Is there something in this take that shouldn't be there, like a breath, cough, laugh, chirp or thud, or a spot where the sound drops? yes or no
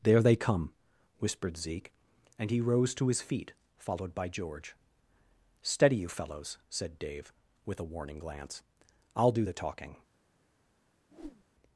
yes